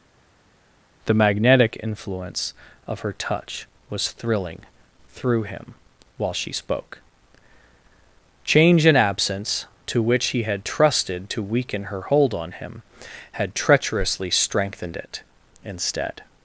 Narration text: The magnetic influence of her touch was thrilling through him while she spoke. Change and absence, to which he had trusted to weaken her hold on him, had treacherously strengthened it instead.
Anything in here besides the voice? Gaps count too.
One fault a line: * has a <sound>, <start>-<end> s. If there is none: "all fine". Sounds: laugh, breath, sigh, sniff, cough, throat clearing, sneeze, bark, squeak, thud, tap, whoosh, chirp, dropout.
all fine